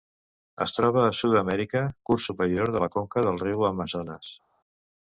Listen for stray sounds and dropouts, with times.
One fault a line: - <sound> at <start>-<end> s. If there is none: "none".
none